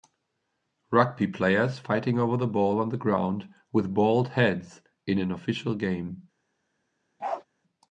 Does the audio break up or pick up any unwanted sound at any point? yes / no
yes